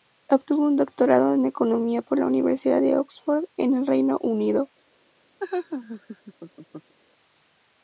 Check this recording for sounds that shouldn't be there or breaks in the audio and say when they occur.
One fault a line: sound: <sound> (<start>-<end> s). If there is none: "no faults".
sound: laugh (5.4-6.9 s)